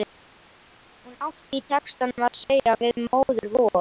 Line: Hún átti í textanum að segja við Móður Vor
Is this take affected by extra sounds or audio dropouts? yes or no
no